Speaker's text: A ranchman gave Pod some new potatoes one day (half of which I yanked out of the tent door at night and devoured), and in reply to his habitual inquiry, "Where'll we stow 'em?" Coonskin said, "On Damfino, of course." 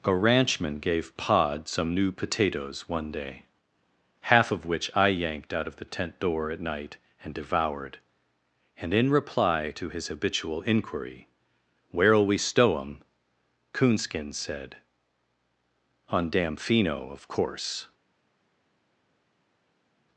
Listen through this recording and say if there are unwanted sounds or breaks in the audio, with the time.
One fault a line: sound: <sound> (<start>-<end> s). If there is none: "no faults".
no faults